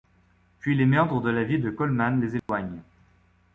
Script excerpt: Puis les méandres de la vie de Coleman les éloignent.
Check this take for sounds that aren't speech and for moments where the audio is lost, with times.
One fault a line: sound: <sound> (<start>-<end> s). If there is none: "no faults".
sound: dropout (2.4-2.5 s)